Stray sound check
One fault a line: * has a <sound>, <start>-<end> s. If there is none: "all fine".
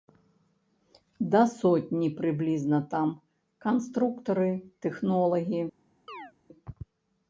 * has a chirp, 6.1-6.3 s